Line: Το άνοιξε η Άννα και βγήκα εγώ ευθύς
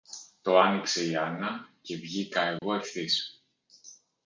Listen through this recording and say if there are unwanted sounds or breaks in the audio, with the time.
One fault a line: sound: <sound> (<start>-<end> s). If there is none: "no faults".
sound: dropout (2.6-2.6 s)